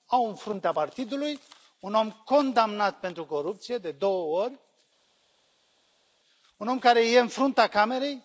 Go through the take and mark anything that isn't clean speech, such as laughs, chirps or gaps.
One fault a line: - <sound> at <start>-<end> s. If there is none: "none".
none